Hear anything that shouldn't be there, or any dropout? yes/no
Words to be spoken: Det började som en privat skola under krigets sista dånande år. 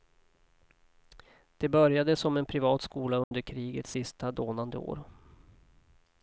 yes